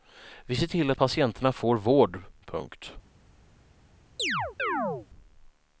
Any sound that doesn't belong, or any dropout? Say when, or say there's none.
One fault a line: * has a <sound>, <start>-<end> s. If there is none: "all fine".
* has a chirp, 4.2-5.1 s